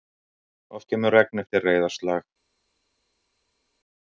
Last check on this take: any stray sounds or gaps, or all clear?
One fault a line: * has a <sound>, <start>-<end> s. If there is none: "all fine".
all fine